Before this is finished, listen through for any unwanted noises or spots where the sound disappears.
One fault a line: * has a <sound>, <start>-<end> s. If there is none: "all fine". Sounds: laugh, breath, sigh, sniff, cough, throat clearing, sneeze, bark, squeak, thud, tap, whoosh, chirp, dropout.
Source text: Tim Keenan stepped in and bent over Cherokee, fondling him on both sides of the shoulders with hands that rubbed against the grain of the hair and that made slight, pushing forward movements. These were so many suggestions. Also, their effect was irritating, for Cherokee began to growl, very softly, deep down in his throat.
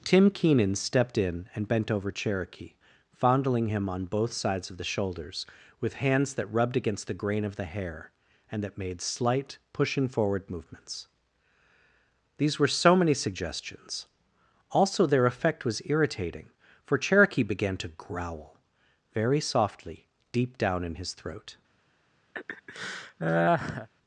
* has a laugh, 22.3-23.9 s